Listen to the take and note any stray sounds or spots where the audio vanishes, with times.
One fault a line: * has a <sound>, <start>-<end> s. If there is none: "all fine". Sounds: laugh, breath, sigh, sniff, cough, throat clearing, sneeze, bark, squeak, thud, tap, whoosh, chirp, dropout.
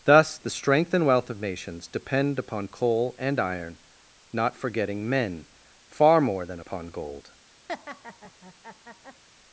* has a laugh, 7.7-9.2 s